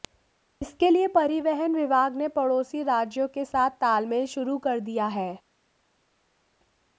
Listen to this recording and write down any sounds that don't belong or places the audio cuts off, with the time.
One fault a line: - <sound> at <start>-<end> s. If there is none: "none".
none